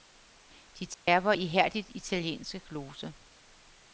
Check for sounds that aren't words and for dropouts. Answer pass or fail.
fail